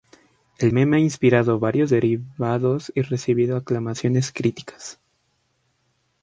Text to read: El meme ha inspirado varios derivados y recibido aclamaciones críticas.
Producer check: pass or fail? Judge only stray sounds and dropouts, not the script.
pass